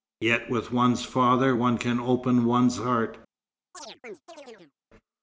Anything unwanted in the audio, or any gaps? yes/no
yes